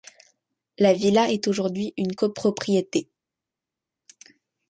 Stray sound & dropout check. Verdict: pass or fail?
pass